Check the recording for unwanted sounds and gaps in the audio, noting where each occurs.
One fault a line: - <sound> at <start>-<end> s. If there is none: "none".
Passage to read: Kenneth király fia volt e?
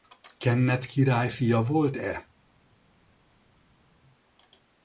none